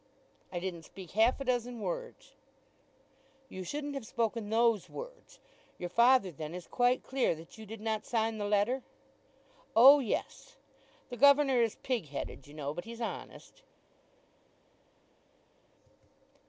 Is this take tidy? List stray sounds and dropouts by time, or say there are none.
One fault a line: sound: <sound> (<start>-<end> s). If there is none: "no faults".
no faults